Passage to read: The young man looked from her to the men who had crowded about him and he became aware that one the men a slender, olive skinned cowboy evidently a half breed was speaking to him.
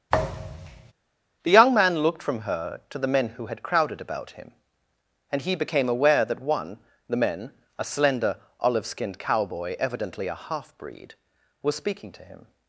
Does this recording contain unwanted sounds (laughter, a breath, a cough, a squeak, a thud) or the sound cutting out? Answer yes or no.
yes